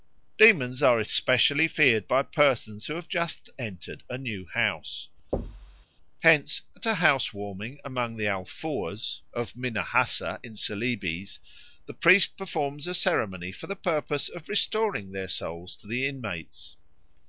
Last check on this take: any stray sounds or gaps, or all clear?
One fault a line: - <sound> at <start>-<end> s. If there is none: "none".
- thud at 5.3-5.9 s